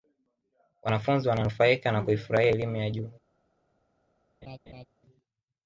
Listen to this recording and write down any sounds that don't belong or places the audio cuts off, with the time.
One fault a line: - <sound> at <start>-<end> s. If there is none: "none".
- laugh at 4.4-4.9 s